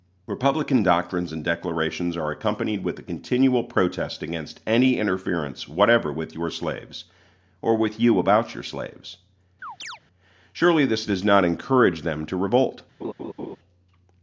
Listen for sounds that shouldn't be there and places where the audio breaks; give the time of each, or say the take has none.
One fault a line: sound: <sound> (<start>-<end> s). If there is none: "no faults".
sound: chirp (9.6-10.0 s)
sound: laugh (13.0-13.6 s)